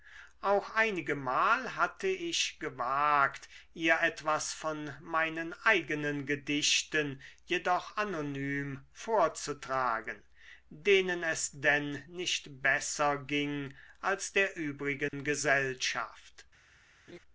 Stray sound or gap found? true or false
true